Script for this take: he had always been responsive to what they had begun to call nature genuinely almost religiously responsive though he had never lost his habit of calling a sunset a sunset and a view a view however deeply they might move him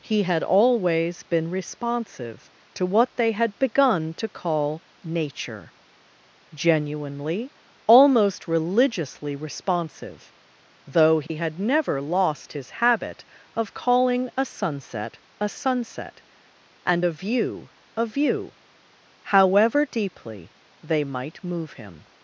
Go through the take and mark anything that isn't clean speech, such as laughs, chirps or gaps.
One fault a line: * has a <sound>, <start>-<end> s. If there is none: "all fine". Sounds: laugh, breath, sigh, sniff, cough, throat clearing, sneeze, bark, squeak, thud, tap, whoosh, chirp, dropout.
* has a dropout, 11.3-11.3 s